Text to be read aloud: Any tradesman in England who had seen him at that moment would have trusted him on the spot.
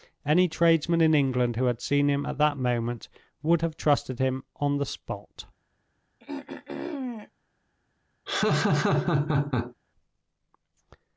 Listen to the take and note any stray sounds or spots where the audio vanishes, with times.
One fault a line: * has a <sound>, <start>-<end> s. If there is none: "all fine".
* has a throat clearing, 6.2-7.3 s
* has a laugh, 8.3-9.7 s